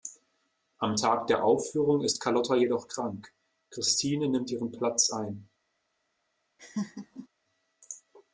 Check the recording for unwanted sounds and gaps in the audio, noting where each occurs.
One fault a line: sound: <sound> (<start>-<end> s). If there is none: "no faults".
sound: laugh (6.6-7.3 s)